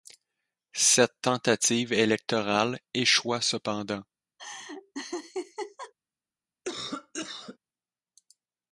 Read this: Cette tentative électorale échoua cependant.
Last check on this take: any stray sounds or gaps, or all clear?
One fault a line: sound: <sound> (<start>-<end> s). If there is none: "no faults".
sound: laugh (4.4-5.9 s)
sound: cough (6.6-7.6 s)